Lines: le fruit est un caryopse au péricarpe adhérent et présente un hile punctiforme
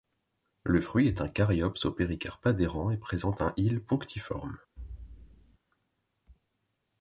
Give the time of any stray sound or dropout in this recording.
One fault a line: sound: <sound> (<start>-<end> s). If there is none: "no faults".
sound: thud (4.8-5.6 s)